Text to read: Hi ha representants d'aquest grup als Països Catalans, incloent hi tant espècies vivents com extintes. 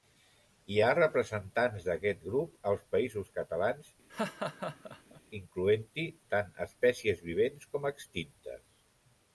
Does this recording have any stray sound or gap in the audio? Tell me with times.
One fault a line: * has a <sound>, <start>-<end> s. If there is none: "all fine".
* has a laugh, 4.1-5.2 s